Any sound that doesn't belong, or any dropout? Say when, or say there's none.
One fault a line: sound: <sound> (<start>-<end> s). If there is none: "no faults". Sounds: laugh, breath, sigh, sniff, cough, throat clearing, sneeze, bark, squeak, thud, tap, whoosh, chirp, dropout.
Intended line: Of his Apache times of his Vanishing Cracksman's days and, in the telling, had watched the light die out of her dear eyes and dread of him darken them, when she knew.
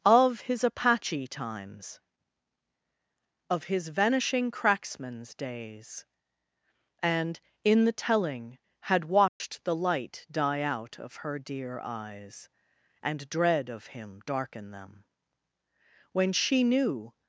sound: dropout (9.3-9.4 s)